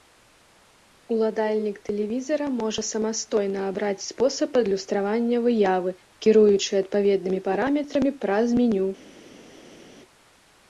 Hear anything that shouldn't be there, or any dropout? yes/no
no